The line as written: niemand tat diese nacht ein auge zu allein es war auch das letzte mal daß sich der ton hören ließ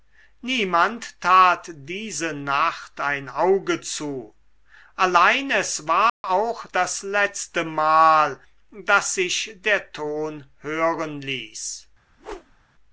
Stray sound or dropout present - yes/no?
yes